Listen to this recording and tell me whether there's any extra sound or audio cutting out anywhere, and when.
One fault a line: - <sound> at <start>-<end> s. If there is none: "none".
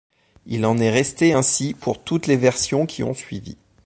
none